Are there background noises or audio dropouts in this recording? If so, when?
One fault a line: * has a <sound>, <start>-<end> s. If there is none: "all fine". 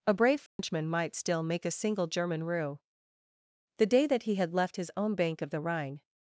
* has a dropout, 0.5-0.6 s